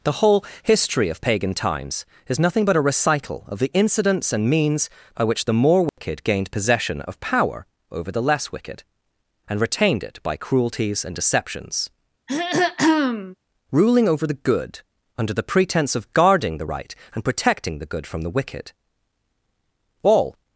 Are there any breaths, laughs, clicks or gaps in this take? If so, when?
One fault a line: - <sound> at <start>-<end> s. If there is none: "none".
- dropout at 5.9-6.0 s
- throat clearing at 12.3-13.3 s